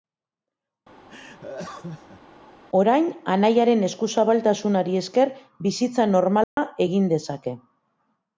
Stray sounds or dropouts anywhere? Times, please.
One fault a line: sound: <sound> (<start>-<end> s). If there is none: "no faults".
sound: laugh (1.1-2.2 s)
sound: dropout (6.4-6.6 s)